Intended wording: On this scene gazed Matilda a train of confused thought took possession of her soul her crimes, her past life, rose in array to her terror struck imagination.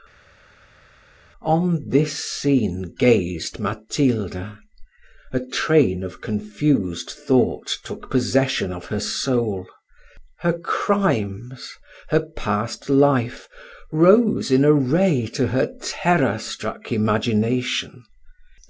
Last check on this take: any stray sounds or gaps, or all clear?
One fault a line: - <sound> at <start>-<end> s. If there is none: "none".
none